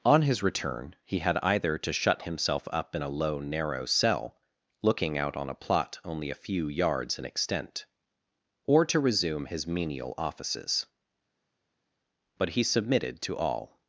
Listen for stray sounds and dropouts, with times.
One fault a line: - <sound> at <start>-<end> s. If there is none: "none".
none